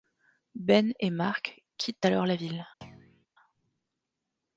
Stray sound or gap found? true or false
true